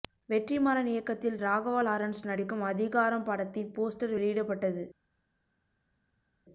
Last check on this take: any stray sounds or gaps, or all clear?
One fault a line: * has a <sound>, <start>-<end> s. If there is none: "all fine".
all fine